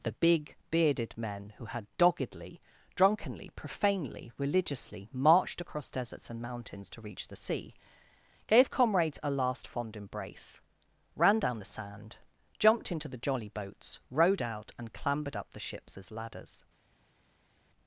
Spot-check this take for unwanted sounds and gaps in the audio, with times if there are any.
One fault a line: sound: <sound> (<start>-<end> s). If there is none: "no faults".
no faults